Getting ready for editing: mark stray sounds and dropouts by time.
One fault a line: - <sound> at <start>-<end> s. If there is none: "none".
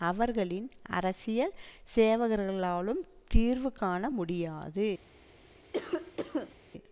- cough at 5.7-6.5 s